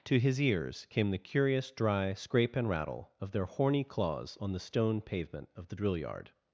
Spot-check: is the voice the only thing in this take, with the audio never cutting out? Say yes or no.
yes